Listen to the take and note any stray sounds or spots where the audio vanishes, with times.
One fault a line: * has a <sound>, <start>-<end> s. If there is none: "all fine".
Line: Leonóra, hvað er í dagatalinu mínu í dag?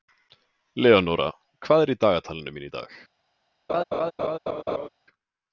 * has a laugh, 3.7-4.9 s